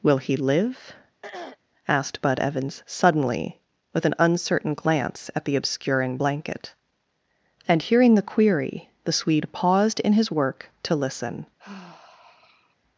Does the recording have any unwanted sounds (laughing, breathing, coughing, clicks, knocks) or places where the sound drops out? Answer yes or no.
yes